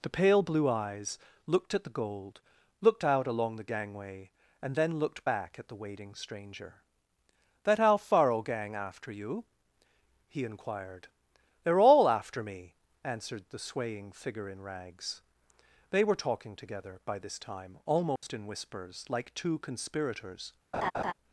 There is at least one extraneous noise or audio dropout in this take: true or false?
true